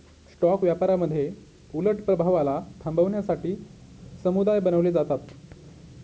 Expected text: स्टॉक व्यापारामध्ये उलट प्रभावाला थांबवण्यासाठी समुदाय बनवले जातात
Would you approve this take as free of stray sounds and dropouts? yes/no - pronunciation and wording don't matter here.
yes